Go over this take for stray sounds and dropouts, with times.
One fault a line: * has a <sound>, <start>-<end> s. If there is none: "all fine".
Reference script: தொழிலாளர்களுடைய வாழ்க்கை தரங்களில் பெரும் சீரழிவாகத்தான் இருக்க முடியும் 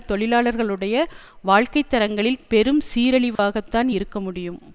* has a dropout, 3.4-3.4 s